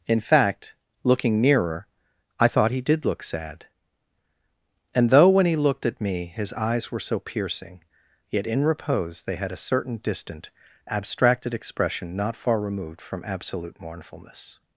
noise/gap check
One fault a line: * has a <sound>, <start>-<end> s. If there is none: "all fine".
all fine